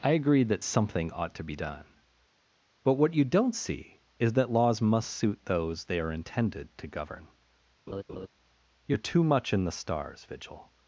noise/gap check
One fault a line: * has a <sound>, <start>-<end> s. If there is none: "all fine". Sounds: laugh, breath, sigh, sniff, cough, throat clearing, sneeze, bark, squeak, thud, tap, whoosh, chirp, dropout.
* has a laugh, 7.9-8.3 s